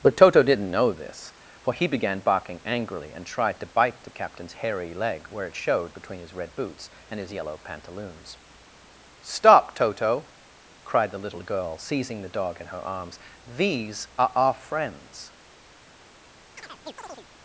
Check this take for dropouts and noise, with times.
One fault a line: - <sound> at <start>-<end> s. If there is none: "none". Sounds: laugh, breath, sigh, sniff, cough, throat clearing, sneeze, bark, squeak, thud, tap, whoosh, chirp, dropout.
- chirp at 16.6-17.3 s